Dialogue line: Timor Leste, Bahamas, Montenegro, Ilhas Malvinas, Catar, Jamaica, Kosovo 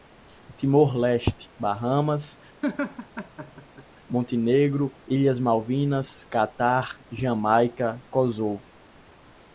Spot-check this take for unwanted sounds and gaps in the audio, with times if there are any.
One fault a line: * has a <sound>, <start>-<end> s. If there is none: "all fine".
* has a laugh, 2.6-3.9 s